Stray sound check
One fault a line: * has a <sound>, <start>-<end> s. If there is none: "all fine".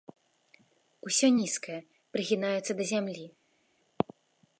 all fine